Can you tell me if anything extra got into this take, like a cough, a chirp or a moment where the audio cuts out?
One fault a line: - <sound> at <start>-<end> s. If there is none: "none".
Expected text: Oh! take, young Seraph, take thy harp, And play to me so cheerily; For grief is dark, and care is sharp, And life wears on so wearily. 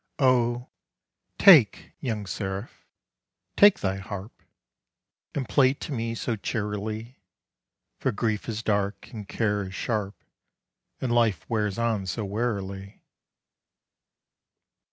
none